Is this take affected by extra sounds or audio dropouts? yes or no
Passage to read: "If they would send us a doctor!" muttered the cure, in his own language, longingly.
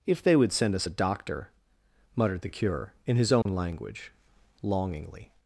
yes